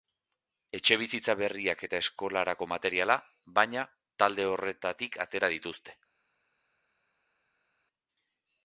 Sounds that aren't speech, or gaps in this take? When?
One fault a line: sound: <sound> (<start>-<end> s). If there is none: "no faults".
no faults